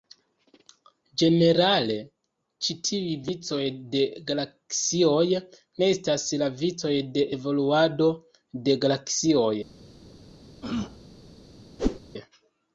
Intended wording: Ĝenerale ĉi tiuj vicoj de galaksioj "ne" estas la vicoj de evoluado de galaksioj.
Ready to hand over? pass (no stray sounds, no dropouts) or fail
fail